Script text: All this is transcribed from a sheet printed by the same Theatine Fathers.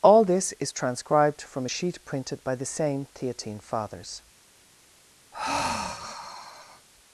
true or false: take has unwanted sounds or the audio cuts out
true